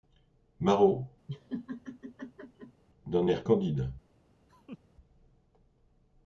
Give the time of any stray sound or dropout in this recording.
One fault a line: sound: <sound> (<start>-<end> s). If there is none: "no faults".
sound: laugh (1.3-2.8 s)
sound: laugh (4.5-4.8 s)